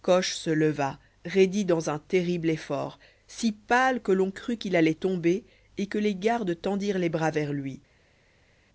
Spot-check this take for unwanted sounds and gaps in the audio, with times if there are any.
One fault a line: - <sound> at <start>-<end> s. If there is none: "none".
none